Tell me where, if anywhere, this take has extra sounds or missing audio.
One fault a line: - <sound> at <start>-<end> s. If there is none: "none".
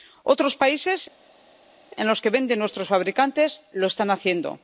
none